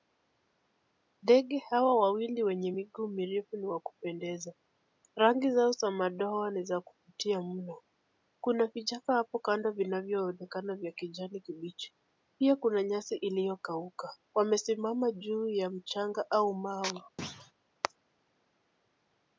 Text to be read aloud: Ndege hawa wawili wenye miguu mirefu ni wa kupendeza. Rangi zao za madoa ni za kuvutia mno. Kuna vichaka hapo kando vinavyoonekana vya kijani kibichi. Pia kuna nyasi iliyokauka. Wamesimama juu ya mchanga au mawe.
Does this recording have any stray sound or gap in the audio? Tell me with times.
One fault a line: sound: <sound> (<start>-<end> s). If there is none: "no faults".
sound: thud (17.2-17.5 s)